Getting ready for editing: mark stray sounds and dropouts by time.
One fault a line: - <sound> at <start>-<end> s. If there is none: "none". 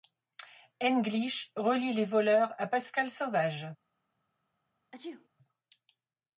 - sneeze at 4.9-5.3 s